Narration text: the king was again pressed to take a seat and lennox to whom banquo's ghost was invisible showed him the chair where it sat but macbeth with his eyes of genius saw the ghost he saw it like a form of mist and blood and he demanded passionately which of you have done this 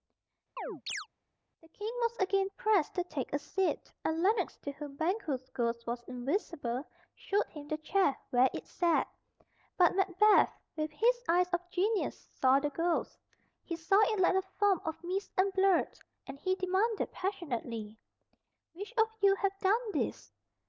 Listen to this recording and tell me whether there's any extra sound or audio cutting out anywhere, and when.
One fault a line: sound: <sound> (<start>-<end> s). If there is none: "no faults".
sound: chirp (0.6-1.1 s)